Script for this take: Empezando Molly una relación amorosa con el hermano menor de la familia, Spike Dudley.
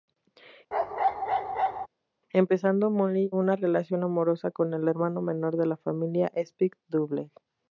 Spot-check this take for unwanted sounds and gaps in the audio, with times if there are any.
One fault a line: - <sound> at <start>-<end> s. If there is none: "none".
- bark at 0.7-1.9 s